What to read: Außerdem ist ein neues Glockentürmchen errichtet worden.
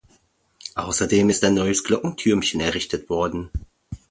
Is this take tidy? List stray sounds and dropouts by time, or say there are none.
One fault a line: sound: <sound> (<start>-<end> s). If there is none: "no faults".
no faults